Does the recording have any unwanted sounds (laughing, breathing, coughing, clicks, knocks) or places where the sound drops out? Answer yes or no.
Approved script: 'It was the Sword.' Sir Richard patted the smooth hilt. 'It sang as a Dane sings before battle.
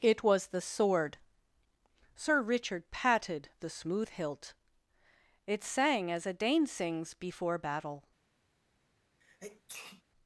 yes